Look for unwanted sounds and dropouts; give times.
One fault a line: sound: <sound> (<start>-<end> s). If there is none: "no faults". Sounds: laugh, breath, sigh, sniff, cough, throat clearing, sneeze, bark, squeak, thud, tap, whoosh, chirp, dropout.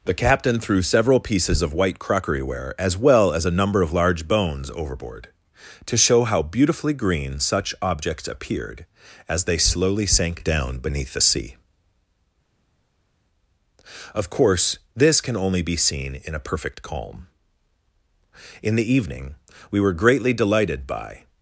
no faults